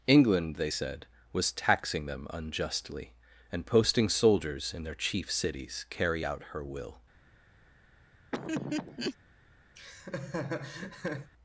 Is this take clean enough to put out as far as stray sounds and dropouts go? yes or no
no